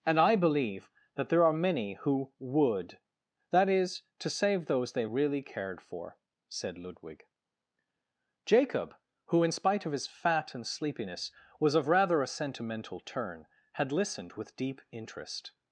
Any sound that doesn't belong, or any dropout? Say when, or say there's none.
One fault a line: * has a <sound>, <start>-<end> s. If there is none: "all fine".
all fine